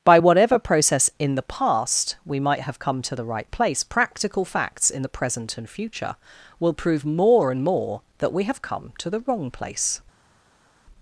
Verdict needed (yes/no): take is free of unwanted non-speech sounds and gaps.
yes